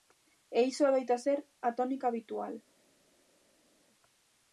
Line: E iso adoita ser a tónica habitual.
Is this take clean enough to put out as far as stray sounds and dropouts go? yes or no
yes